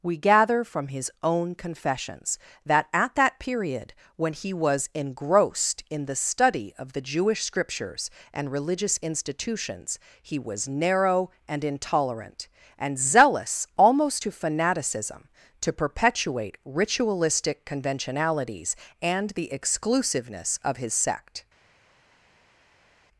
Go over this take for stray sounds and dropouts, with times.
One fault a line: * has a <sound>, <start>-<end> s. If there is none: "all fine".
all fine